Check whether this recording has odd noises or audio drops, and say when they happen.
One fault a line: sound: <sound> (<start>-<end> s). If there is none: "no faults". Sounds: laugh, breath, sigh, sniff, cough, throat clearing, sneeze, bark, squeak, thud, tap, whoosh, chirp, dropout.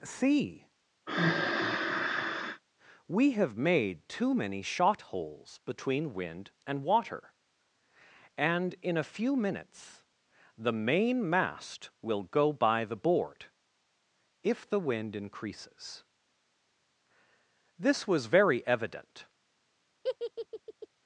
sound: sigh (1.1-2.6 s)
sound: laugh (20.0-20.9 s)